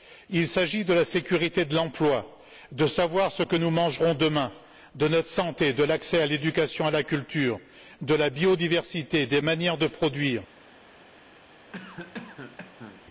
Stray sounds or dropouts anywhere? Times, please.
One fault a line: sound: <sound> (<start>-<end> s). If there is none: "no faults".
sound: cough (11.7-13.0 s)